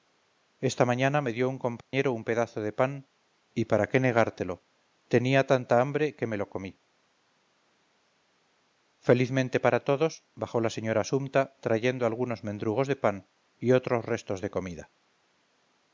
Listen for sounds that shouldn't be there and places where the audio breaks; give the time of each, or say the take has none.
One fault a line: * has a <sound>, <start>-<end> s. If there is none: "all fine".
* has a dropout, 1.8-1.9 s